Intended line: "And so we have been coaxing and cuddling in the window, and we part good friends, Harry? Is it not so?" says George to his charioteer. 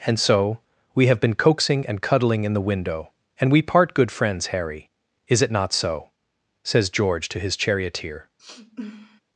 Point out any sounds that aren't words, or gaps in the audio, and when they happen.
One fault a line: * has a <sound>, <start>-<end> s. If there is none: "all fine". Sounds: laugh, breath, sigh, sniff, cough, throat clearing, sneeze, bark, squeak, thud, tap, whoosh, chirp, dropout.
* has a sniff, 8.4-9.2 s